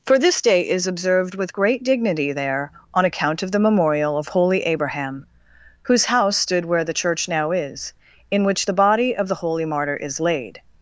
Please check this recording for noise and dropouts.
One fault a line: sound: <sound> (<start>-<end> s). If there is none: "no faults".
no faults